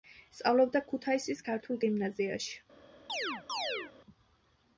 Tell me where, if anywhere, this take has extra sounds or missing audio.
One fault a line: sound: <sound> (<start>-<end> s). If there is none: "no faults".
sound: chirp (3.1-3.9 s)